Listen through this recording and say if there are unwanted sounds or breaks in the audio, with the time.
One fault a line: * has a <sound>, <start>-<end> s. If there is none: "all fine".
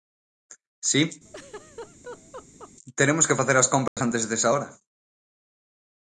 * has a laugh, 1.2-2.7 s
* has a dropout, 3.9-4.0 s